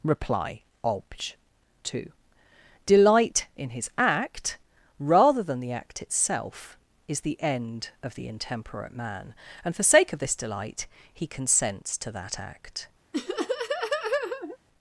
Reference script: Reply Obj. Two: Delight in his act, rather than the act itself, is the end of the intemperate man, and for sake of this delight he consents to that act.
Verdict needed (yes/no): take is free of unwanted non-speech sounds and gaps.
no